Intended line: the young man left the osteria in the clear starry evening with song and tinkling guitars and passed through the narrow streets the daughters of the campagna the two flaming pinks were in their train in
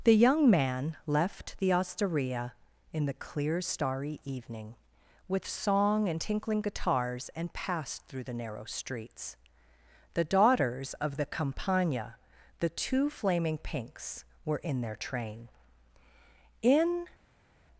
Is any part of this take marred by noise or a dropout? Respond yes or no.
no